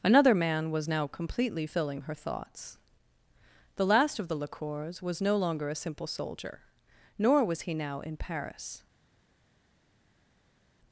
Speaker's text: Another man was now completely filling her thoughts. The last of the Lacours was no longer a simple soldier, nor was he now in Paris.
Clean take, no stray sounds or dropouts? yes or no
yes